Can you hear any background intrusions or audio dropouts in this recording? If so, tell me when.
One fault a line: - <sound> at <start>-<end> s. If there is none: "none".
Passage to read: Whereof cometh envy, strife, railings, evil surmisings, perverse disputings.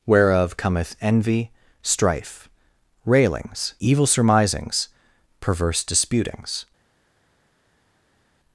none